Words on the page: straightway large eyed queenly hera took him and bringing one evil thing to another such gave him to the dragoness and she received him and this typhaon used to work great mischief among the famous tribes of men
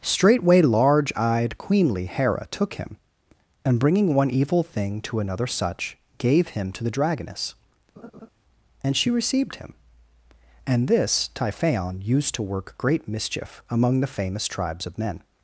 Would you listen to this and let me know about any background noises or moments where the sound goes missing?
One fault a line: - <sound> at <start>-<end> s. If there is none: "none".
- laugh at 8.0-8.3 s